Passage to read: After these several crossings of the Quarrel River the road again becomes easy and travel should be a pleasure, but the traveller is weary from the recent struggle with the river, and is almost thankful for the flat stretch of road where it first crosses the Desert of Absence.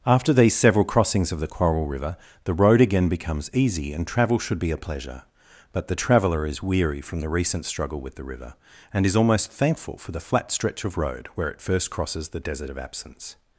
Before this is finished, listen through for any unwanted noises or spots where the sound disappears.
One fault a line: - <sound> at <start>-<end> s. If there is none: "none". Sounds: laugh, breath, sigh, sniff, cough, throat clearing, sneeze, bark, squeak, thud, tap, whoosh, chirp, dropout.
none